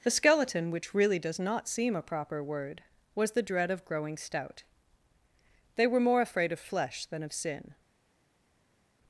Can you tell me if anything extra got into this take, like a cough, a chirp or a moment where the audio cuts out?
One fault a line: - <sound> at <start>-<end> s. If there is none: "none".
none